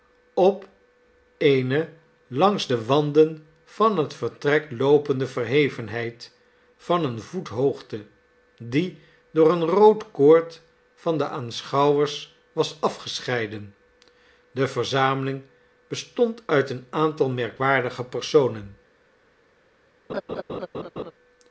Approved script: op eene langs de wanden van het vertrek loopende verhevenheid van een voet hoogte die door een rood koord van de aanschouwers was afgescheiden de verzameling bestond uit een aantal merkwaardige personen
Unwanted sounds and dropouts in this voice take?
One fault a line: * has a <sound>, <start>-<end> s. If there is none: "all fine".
* has a laugh, 20.1-21.1 s